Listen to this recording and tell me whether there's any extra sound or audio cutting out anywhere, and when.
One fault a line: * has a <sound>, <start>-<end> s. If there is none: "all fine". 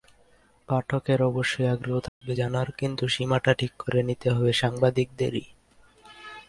* has a dropout, 2.1-2.2 s